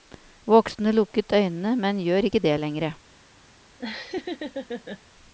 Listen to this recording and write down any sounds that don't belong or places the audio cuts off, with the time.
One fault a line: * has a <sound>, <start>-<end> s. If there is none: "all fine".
* has a laugh, 3.8-5.0 s